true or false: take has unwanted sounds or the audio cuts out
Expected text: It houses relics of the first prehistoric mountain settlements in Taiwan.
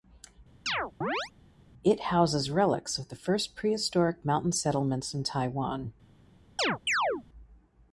true